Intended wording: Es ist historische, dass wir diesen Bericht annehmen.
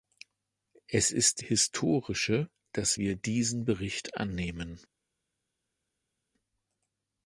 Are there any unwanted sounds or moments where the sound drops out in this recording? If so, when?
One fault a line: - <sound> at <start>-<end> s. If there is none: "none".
none